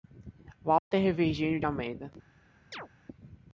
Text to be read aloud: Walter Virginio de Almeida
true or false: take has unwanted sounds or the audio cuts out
true